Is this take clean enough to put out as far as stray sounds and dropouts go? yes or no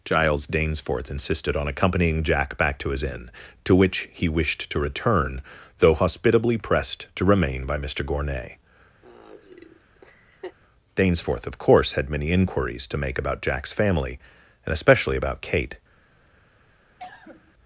no